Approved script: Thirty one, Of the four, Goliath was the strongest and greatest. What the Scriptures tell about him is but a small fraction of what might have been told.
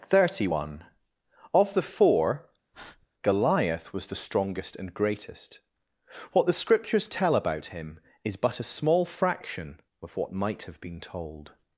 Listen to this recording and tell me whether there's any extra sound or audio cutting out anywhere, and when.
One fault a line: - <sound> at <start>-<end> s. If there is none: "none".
- breath at 2.7-3.1 s